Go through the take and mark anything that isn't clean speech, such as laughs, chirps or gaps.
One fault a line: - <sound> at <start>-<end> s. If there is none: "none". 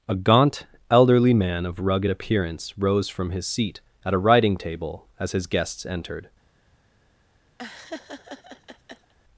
- laugh at 7.6-9.1 s